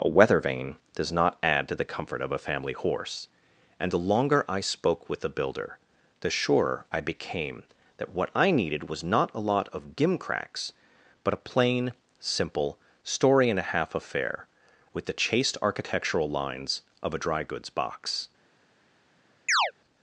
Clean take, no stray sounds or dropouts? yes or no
no